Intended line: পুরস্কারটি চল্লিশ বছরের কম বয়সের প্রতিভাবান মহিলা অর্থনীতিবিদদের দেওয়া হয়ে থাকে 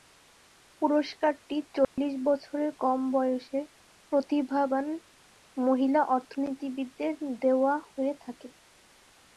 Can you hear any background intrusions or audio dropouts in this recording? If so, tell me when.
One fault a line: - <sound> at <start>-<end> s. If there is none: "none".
- dropout at 1.8-2.0 s